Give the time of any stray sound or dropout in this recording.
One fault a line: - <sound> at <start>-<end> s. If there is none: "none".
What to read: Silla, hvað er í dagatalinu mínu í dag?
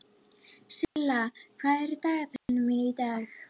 - dropout at 0.8-1.0 s
- dropout at 2.4-2.5 s